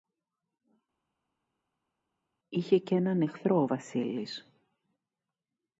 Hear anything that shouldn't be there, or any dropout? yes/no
no